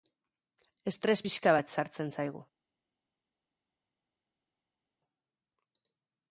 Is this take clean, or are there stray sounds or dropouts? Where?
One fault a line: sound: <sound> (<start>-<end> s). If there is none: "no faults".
no faults